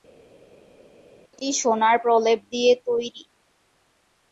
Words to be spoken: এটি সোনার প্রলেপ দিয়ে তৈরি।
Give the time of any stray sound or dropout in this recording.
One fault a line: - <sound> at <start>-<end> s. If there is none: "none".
none